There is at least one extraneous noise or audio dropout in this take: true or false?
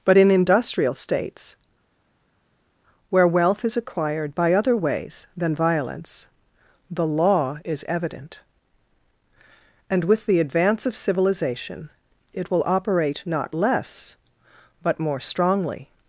false